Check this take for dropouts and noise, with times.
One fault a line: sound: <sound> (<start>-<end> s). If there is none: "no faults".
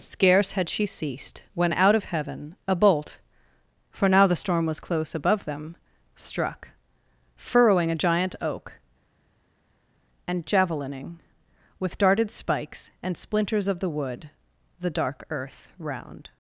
no faults